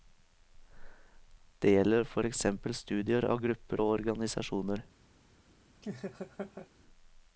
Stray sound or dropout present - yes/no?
yes